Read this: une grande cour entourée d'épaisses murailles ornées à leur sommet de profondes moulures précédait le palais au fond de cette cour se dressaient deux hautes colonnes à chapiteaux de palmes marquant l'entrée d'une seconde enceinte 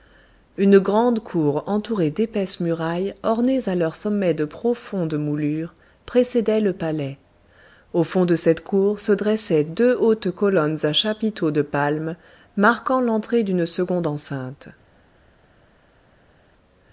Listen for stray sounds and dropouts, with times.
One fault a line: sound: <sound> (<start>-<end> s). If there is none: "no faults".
no faults